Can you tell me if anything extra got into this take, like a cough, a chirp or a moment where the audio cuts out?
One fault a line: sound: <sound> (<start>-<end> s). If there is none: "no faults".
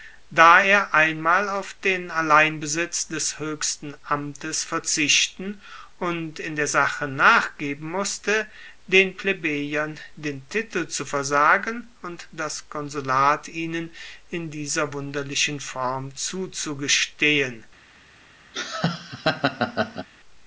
sound: laugh (18.5-20.1 s)